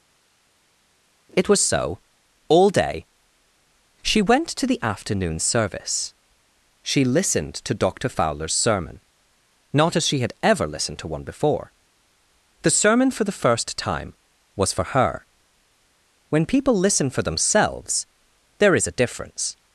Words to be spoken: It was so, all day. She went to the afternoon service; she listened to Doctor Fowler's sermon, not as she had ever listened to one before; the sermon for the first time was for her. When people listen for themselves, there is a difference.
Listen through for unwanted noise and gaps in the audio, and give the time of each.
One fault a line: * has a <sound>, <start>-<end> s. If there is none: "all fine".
all fine